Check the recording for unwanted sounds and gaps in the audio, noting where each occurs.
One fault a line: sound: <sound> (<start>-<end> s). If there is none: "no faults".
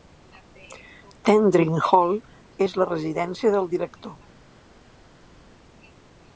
no faults